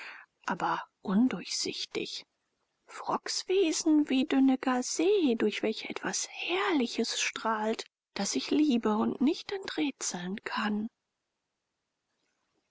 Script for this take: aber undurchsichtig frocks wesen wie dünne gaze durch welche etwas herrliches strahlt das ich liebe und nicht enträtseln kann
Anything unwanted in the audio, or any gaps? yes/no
no